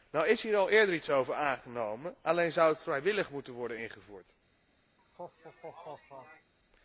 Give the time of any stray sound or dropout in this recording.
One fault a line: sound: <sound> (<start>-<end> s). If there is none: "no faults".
sound: laugh (5.0-6.5 s)